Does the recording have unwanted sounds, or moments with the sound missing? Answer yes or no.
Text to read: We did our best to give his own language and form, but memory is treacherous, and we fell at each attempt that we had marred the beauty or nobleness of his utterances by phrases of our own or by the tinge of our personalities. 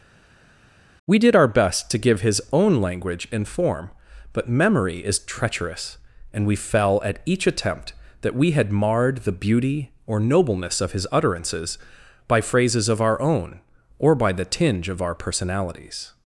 no